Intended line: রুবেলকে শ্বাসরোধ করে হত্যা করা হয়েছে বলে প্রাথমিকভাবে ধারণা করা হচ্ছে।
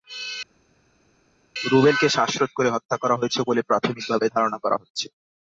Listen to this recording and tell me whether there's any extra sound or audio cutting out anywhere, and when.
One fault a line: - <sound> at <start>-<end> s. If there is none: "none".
none